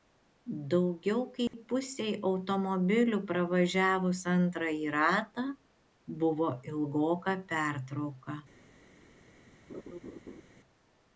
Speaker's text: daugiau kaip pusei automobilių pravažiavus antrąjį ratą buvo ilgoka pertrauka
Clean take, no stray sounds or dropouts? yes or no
no